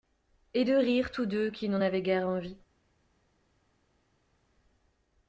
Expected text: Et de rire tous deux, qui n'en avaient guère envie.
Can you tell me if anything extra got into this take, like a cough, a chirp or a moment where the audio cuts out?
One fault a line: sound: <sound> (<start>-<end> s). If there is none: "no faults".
no faults